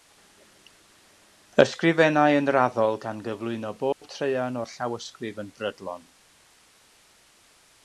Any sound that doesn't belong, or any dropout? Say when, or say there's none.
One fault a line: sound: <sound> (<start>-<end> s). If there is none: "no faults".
sound: dropout (3.9-4.0 s)